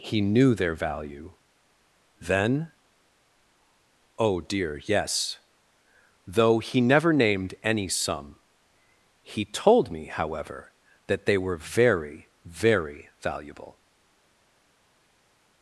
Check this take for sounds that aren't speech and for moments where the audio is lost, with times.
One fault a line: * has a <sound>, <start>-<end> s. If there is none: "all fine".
all fine